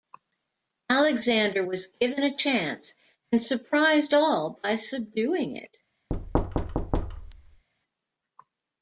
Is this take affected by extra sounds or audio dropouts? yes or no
yes